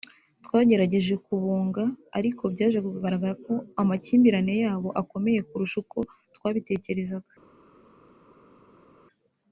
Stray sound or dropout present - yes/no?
no